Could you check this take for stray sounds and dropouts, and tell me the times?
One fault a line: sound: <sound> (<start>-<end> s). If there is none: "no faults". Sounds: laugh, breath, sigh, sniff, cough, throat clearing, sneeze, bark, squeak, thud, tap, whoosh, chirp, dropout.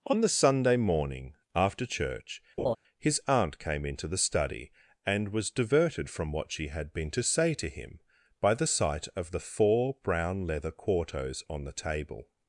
sound: laugh (2.6-2.8 s)